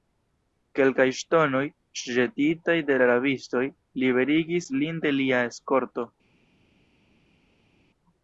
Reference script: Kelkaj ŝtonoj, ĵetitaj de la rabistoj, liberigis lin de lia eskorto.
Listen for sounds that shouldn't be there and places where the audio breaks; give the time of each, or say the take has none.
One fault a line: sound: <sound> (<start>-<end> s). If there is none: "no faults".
no faults